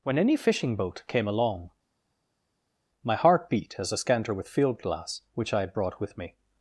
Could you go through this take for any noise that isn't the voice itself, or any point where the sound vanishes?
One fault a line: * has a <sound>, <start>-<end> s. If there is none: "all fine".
all fine